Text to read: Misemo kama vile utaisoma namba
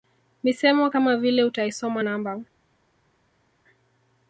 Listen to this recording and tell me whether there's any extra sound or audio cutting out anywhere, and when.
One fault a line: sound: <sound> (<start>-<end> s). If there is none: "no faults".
no faults